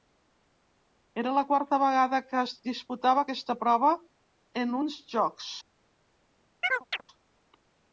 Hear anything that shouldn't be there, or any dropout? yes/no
yes